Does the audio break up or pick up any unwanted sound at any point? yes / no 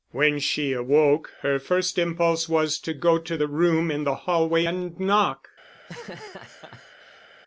yes